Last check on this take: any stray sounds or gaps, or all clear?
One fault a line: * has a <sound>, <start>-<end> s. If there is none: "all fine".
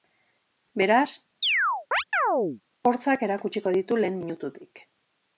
* has a chirp, 1.4-2.6 s